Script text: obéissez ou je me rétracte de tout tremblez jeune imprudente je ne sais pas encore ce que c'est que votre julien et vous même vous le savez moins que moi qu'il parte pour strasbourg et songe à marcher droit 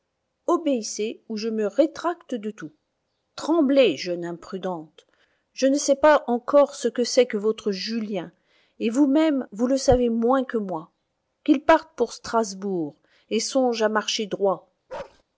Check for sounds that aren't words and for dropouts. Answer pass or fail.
fail